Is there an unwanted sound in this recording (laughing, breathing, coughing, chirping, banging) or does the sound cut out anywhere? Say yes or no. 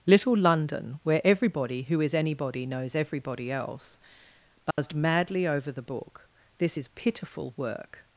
yes